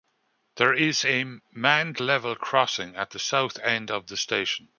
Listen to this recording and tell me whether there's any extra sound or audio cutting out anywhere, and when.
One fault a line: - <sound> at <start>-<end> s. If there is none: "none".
none